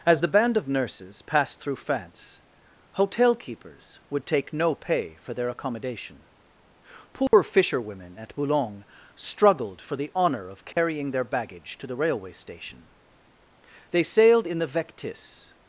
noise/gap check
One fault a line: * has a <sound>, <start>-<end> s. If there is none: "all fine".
* has a dropout, 7.3-7.3 s
* has a dropout, 10.7-10.8 s